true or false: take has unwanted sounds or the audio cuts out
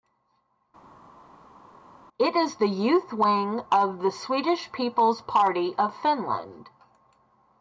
false